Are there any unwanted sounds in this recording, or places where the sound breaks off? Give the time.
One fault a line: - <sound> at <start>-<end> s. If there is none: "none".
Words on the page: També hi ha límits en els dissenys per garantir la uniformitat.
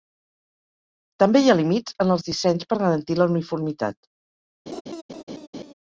- laugh at 4.7-5.7 s